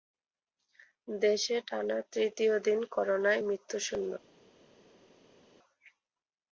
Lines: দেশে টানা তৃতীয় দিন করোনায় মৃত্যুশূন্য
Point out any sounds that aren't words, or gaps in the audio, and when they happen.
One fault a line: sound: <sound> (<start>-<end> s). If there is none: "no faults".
no faults